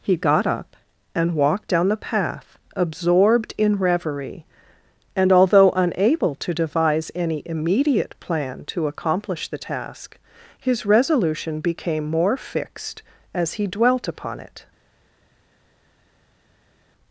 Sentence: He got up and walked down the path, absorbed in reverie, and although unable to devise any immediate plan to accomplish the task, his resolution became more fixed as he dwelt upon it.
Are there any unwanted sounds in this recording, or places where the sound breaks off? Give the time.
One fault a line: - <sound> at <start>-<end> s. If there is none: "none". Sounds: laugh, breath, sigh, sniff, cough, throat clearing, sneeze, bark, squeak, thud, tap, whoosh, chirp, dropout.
none